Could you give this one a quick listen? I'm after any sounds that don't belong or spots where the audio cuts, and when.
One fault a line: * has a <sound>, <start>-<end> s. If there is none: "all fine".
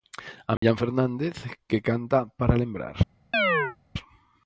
* has a dropout, 0.6-0.6 s
* has a chirp, 3.3-3.8 s